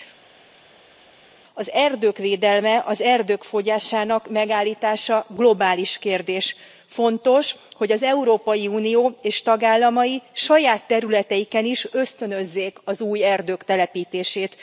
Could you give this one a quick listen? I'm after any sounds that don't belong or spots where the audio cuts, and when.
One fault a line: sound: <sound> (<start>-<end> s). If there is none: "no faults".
no faults